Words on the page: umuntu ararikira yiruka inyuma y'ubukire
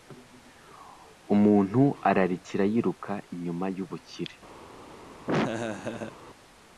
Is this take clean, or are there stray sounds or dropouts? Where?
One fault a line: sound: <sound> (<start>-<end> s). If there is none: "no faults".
sound: laugh (5.3-6.2 s)